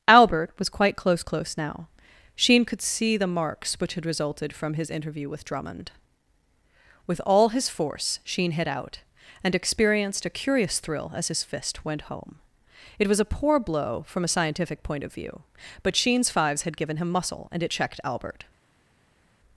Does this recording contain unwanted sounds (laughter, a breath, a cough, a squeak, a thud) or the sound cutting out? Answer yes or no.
no